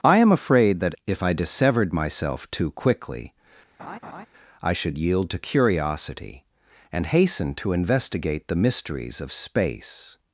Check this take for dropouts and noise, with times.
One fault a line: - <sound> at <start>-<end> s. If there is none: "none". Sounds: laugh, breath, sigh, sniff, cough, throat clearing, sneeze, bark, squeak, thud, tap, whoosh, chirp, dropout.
- laugh at 3.8-4.3 s